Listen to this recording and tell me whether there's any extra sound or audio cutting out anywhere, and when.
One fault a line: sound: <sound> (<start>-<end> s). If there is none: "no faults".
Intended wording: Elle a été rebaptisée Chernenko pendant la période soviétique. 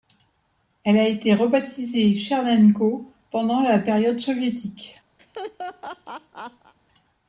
sound: laugh (5.2-6.7 s)